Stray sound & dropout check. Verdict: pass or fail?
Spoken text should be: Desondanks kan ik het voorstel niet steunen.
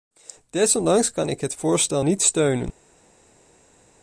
pass